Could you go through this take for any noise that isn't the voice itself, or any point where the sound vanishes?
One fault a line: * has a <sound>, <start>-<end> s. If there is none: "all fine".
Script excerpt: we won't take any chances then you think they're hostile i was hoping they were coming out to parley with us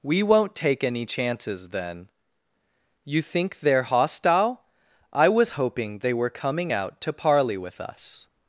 all fine